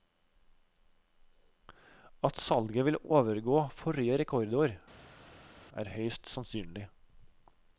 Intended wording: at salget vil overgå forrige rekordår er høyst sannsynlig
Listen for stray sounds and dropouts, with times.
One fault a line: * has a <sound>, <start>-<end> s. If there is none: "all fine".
all fine